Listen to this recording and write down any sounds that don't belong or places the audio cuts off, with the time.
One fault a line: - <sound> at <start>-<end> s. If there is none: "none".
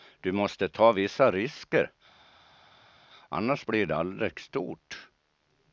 none